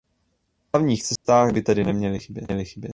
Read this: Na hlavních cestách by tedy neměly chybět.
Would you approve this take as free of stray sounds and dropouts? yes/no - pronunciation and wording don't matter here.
no